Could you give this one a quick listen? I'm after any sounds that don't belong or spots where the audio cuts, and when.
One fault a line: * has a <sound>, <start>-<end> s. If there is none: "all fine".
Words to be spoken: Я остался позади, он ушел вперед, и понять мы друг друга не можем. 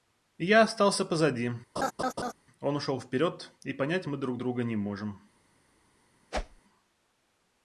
* has a laugh, 1.8-2.3 s
* has a whoosh, 6.3-6.6 s